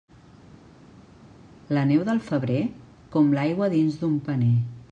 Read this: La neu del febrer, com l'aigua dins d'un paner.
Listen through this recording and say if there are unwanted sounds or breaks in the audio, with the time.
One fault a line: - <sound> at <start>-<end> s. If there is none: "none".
none